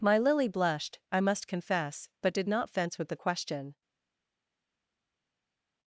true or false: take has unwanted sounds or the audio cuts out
false